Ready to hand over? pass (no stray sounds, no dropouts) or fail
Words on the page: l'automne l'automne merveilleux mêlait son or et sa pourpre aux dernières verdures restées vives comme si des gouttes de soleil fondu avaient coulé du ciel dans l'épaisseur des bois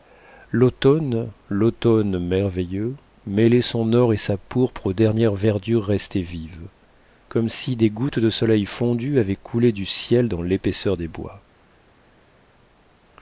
pass